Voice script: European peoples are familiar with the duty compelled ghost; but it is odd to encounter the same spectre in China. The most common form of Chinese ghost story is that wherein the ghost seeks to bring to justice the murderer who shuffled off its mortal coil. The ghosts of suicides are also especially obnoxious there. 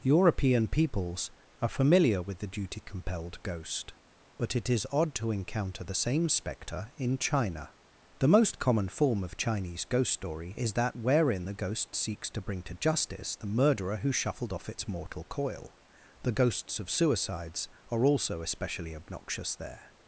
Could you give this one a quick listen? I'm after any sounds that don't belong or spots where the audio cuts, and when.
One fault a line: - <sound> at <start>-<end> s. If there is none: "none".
none